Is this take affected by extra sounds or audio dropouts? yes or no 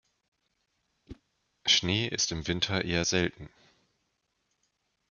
yes